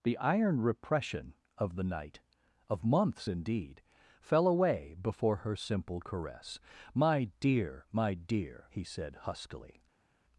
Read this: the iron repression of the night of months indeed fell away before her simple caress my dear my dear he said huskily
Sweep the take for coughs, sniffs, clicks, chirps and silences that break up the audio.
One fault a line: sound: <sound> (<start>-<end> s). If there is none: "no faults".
no faults